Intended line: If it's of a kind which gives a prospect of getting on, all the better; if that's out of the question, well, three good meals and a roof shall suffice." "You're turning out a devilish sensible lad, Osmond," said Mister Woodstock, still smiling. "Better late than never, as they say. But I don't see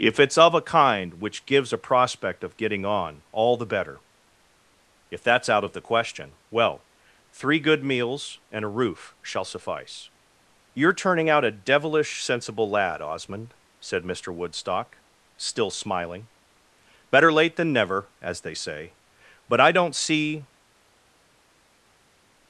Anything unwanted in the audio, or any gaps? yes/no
no